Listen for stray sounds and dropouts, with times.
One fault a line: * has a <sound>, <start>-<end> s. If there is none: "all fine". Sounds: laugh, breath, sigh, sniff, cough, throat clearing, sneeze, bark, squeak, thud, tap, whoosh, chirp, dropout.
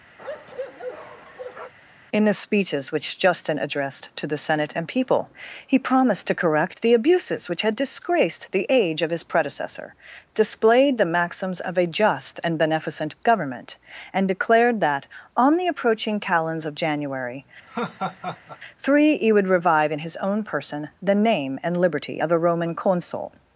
* has a bark, 0.2-1.7 s
* has a laugh, 17.7-18.6 s